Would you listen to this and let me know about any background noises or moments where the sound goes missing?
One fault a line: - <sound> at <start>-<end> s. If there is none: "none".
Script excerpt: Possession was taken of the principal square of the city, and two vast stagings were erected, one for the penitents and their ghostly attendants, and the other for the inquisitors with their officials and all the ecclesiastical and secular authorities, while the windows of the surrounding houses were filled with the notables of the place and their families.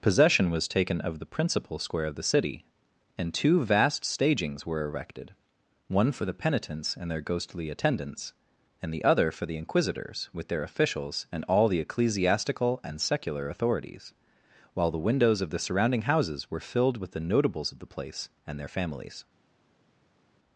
none